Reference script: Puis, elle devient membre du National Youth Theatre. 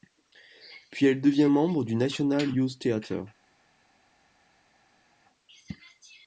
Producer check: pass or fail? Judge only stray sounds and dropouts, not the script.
pass